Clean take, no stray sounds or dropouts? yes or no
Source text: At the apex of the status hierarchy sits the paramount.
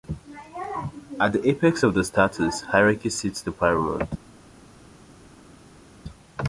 yes